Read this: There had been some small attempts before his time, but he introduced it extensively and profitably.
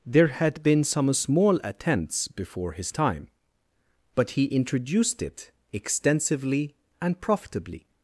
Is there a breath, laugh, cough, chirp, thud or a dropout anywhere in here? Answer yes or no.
no